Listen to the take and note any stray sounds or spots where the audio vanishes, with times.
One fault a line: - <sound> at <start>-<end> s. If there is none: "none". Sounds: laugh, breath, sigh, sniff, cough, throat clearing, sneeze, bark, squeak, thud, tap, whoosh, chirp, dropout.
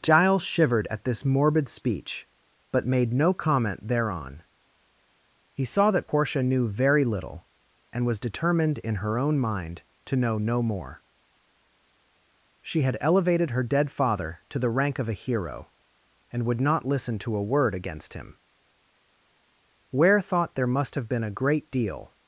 none